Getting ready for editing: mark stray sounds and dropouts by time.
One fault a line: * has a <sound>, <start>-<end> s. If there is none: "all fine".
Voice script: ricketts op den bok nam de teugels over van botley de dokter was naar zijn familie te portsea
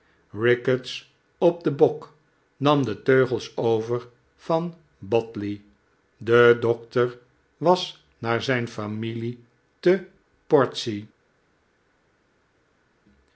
all fine